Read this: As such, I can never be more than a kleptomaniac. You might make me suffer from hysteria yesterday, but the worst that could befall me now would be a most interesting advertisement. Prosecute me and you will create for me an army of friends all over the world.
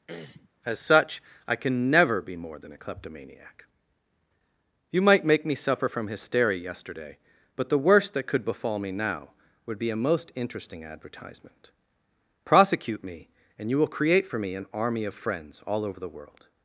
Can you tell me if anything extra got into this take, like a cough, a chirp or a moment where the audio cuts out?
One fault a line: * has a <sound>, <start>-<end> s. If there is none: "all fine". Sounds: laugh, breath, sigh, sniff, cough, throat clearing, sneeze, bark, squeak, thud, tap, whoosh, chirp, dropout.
* has a throat clearing, 0.1-0.5 s